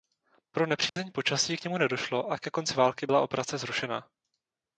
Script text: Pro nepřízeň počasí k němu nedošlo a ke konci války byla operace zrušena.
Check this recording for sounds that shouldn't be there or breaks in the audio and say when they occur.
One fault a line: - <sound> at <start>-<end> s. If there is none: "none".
- dropout at 0.9-1.0 s